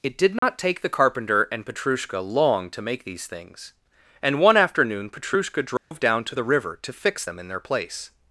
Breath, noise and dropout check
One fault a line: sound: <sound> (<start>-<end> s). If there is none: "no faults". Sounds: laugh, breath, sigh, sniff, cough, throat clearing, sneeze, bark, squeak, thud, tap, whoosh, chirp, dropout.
sound: dropout (0.4-0.4 s)
sound: dropout (5.8-5.9 s)